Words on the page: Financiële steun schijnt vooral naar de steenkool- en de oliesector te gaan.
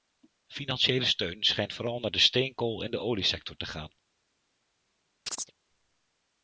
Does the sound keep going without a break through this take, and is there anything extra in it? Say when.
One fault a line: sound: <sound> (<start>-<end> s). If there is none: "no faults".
sound: chirp (5.3-5.5 s)